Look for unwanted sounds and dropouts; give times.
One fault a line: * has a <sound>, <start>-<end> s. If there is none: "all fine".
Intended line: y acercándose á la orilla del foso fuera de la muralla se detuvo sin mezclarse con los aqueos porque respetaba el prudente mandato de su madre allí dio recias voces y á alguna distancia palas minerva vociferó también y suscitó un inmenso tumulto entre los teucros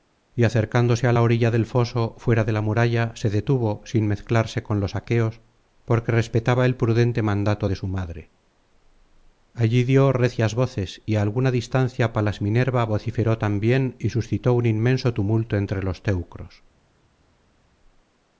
all fine